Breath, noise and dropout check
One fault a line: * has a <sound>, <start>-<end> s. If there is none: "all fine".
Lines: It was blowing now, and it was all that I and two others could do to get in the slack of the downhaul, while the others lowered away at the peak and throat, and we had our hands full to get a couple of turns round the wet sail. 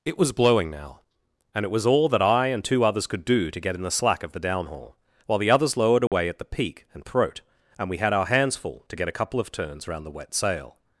* has a dropout, 6.1-6.1 s